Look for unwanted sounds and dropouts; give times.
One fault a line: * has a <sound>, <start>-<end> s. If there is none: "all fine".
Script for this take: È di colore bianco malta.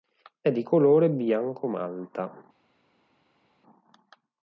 all fine